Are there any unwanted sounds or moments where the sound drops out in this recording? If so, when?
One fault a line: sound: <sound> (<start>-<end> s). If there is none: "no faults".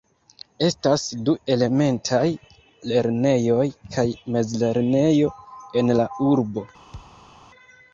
sound: thud (6.9-7.3 s)